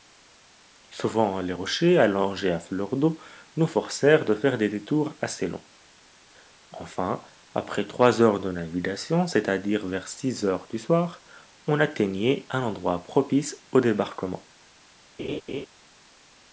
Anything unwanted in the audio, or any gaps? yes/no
yes